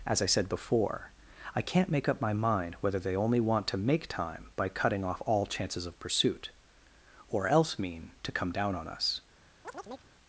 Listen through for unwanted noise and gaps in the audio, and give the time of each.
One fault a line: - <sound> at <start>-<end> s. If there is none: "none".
- chirp at 9.6-10.1 s